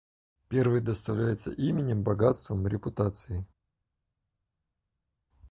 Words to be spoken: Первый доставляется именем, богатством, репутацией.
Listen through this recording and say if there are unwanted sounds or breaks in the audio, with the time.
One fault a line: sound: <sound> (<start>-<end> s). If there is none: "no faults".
no faults